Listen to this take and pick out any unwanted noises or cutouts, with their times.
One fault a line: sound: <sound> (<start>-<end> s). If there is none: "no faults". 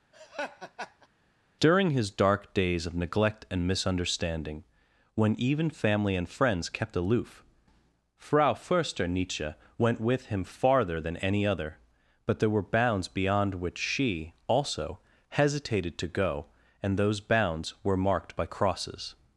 sound: laugh (0.1-1.1 s)